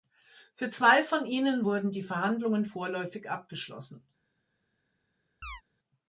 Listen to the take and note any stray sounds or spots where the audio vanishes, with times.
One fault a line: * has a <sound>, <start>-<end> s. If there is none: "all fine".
* has a chirp, 5.4-5.6 s